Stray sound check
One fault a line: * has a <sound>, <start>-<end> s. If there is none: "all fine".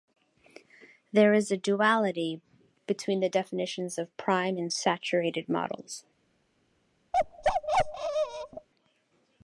* has a bark, 7.1-8.7 s